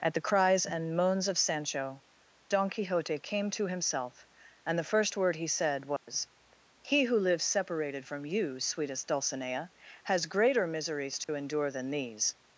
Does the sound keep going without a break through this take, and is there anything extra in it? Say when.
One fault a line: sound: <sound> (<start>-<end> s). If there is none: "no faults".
sound: dropout (6.0-6.1 s)
sound: dropout (11.2-11.3 s)